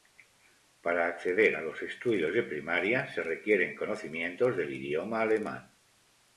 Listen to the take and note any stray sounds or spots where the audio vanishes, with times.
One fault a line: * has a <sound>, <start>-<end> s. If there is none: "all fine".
all fine